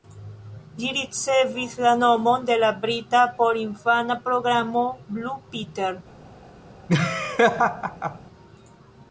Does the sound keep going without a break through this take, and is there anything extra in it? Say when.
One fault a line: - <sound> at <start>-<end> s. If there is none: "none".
- laugh at 6.9-8.2 s